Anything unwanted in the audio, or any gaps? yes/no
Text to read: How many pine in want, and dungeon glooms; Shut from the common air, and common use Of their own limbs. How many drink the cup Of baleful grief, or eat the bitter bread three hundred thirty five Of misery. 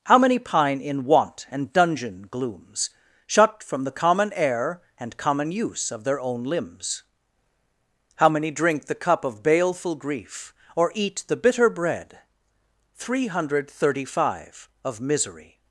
no